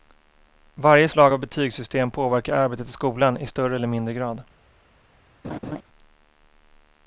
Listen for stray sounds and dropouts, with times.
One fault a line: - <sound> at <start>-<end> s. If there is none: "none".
- laugh at 5.4-5.8 s